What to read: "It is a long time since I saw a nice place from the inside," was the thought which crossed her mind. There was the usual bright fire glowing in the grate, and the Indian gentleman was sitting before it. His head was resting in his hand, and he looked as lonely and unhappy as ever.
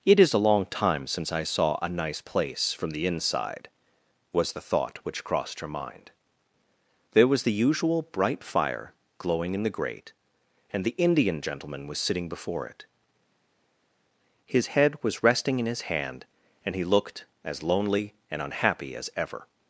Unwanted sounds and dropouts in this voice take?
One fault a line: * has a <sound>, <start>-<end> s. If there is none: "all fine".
all fine